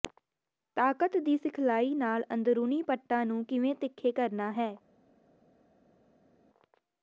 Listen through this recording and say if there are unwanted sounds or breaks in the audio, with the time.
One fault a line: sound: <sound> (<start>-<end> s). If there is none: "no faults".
no faults